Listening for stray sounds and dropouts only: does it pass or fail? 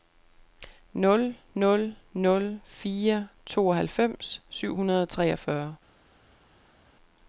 pass